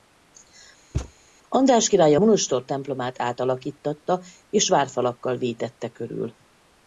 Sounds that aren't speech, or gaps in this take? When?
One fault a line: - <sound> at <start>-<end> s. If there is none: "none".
- thud at 0.9-1.1 s